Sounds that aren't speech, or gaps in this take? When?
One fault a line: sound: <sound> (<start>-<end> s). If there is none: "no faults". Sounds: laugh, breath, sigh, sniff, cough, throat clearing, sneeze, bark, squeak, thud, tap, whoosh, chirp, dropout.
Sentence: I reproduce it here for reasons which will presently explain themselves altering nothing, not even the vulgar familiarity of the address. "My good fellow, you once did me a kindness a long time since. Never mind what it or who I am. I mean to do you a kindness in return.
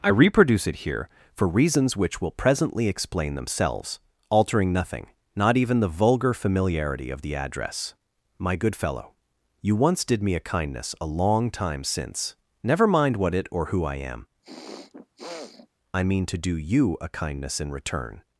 sound: throat clearing (14.4-15.7 s)